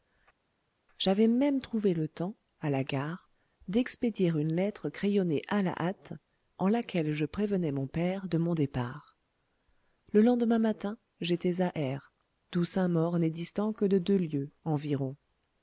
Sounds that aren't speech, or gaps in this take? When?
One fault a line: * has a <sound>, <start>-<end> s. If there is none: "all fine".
all fine